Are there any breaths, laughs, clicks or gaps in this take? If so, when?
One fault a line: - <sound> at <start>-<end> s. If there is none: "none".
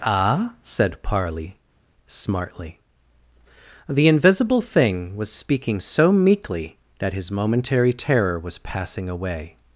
none